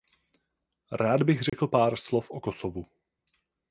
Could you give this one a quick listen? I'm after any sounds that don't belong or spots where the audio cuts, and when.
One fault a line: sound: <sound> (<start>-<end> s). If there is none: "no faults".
sound: dropout (1.5-1.5 s)